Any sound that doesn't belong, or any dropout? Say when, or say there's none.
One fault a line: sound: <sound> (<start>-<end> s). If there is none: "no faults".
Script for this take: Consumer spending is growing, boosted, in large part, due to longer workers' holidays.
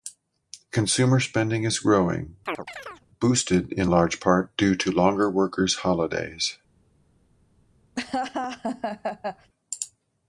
sound: chirp (2.5-3.1 s)
sound: laugh (8.0-9.5 s)